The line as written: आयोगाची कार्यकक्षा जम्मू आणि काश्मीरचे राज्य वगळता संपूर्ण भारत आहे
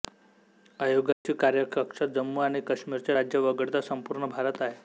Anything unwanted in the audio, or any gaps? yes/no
yes